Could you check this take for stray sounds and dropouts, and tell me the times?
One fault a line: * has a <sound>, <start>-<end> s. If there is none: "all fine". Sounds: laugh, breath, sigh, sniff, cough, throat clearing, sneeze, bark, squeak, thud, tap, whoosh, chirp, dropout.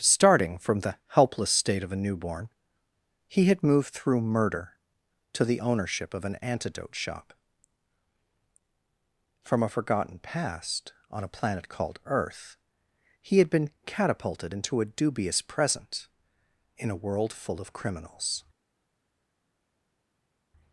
all fine